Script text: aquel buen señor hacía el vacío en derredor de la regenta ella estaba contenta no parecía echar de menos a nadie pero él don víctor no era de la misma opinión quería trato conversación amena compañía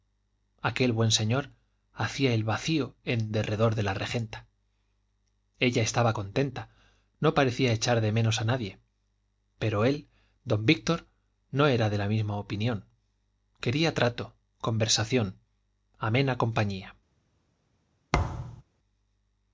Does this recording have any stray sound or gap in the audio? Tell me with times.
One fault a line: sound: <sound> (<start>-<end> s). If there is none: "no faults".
sound: thud (18.1-18.6 s)